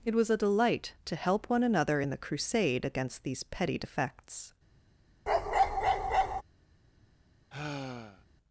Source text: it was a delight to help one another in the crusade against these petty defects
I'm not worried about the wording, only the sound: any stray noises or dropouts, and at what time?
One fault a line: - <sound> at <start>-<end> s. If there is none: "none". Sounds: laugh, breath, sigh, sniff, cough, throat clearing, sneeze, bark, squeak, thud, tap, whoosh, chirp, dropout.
- bark at 5.3-6.4 s
- sigh at 7.5-8.2 s